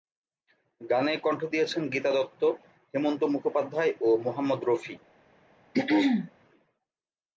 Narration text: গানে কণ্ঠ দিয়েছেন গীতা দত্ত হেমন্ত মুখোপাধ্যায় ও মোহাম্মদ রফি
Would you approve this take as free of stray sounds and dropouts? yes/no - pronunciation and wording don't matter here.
no